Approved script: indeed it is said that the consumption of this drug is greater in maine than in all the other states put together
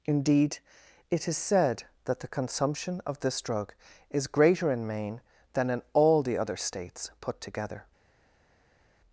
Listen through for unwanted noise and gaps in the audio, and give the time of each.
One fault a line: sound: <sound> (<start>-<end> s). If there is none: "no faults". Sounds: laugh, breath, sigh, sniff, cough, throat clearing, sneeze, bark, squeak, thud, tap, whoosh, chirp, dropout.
no faults